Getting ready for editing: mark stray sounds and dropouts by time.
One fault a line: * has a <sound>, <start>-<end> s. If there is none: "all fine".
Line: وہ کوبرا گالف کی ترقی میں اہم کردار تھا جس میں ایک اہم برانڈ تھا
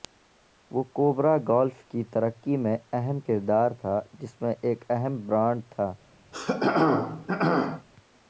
* has a throat clearing, 6.3-7.9 s